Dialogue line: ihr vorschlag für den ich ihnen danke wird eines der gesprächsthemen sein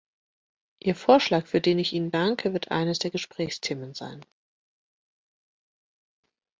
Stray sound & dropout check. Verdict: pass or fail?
pass